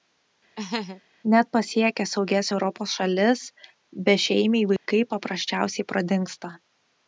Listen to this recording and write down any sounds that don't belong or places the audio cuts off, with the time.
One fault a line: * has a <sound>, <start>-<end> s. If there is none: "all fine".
* has a laugh, 0.6-1.0 s
* has a dropout, 4.8-4.9 s